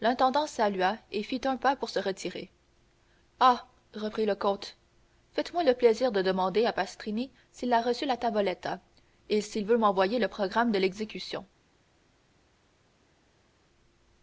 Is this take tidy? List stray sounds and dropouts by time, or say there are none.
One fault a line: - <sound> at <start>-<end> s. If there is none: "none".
none